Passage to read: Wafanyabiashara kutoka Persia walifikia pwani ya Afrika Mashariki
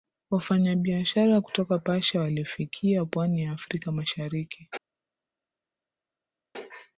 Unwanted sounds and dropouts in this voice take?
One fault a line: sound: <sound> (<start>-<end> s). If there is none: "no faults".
no faults